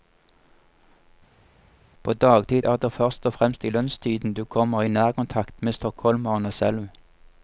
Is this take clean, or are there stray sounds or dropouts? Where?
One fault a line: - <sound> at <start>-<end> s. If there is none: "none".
none